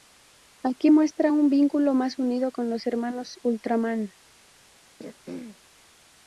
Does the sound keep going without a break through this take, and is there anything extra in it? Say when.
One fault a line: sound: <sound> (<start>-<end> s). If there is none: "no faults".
sound: throat clearing (5.0-5.6 s)